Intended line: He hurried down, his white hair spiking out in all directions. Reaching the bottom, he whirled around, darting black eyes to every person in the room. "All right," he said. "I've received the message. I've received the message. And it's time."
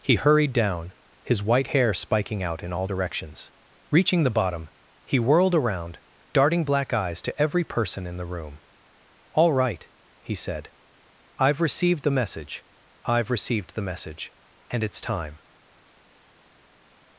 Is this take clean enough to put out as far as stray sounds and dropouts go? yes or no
yes